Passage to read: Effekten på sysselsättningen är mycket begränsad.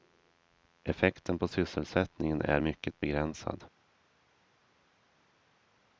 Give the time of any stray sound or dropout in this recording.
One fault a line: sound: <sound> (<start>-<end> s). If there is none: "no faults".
no faults